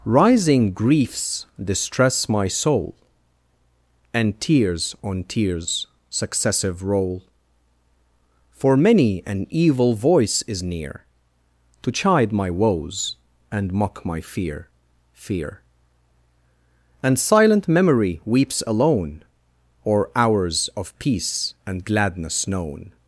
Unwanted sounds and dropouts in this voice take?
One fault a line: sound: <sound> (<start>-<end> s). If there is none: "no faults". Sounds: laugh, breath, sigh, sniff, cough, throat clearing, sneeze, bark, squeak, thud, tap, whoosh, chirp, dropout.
no faults